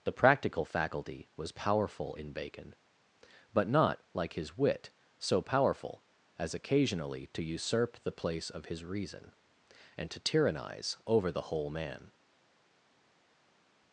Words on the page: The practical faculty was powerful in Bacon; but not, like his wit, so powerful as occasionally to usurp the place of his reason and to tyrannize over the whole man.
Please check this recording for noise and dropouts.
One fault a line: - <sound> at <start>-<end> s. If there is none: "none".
none